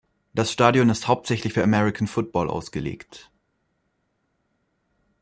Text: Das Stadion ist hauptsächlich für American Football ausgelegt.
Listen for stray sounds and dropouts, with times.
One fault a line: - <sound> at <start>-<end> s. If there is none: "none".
none